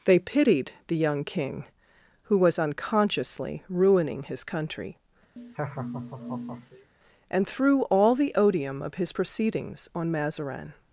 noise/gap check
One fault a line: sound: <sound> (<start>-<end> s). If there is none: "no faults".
sound: laugh (5.4-6.9 s)